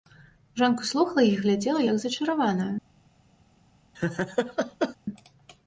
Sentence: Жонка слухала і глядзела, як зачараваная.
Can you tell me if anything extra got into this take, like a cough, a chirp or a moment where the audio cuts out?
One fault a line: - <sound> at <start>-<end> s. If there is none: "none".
- laugh at 3.9-5.0 s